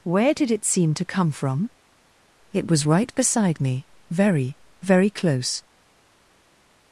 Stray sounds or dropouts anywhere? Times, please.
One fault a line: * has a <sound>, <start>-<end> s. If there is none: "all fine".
all fine